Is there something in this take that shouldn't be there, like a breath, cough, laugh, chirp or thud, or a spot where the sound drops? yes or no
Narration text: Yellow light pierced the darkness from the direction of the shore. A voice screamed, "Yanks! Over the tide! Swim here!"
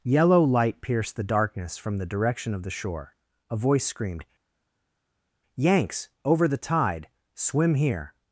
no